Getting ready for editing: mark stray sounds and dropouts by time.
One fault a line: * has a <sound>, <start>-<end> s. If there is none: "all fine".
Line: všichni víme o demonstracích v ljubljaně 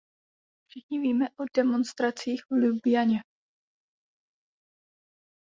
all fine